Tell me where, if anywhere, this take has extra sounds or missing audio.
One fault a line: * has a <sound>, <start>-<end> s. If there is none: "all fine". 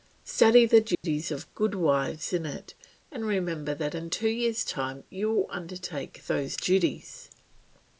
* has a dropout, 0.9-1.0 s